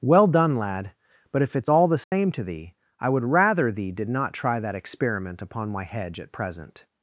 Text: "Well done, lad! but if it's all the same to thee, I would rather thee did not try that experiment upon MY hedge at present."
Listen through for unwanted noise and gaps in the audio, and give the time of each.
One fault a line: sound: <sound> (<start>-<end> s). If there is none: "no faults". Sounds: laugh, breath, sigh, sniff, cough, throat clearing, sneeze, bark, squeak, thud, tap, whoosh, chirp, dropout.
sound: dropout (2.0-2.1 s)